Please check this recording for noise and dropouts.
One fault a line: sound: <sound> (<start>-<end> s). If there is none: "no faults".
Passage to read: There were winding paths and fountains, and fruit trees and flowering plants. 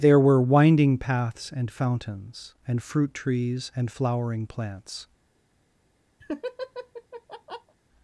sound: laugh (6.2-7.7 s)